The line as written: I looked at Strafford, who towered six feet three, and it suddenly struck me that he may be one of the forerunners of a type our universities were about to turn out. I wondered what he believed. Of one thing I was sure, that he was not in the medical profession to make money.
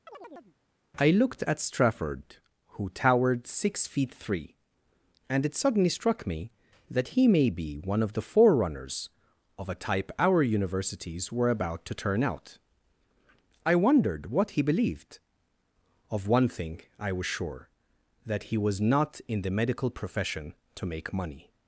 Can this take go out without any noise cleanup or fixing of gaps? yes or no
no